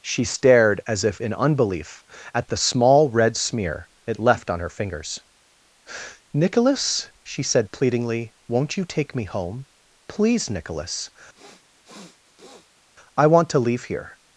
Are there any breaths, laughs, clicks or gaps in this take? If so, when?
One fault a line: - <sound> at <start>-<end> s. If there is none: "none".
- sniff at 11.3-12.9 s